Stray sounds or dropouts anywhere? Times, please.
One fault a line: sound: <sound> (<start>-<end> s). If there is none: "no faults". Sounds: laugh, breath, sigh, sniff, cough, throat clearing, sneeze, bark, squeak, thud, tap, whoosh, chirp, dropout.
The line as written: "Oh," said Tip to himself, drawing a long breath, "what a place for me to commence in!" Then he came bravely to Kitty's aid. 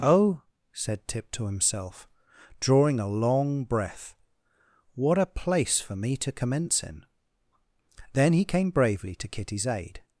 no faults